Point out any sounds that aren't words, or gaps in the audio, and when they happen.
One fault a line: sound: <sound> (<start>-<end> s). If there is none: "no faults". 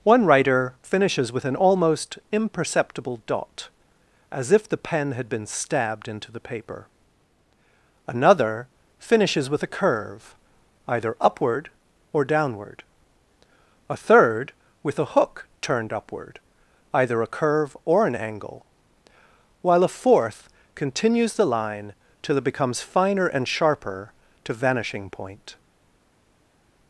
no faults